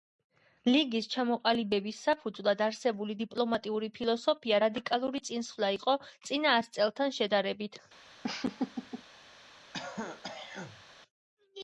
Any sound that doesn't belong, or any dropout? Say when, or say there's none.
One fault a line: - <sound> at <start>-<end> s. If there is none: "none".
- laugh at 8.2-9.0 s
- throat clearing at 9.7-10.8 s